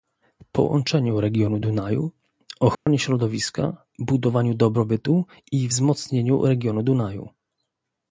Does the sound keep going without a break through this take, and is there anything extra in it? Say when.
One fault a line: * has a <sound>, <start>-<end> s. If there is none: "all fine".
* has a dropout, 2.7-2.9 s